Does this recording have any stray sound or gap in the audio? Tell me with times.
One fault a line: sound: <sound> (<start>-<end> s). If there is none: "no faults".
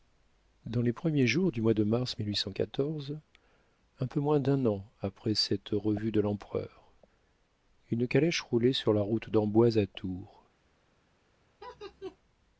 sound: laugh (11.6-12.2 s)